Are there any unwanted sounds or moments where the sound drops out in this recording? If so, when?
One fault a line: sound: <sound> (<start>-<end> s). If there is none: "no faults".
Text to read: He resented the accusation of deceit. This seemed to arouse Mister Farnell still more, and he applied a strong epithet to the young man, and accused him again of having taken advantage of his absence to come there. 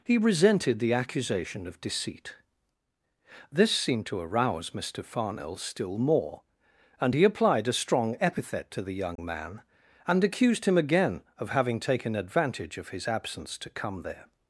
sound: dropout (9.2-9.2 s)